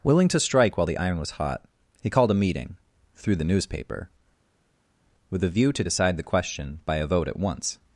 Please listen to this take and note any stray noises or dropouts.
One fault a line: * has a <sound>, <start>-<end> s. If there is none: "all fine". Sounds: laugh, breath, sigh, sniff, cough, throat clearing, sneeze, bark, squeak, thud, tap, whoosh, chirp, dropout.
all fine